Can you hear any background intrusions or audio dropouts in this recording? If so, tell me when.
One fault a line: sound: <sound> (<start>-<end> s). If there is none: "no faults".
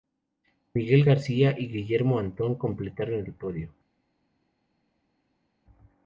no faults